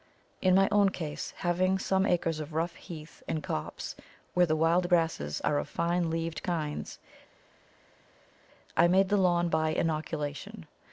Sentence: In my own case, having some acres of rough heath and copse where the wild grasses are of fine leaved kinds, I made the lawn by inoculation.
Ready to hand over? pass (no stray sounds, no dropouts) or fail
pass